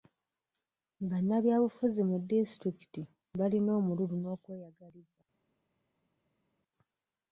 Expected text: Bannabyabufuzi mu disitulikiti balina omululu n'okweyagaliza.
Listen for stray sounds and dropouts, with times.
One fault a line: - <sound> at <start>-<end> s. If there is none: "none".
none